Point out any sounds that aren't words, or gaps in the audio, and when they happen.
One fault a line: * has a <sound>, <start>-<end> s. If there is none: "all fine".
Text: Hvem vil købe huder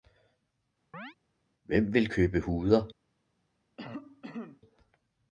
* has a chirp, 0.9-1.2 s
* has a cough, 3.8-4.6 s